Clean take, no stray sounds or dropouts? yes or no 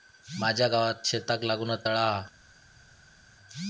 yes